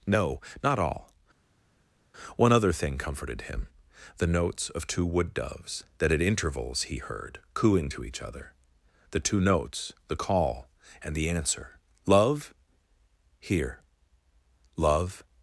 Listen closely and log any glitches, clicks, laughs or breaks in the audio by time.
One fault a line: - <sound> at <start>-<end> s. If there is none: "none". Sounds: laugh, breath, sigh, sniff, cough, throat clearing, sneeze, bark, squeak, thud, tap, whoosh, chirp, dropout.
none